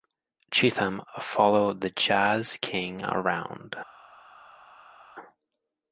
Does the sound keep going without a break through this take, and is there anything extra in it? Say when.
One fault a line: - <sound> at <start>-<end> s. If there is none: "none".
none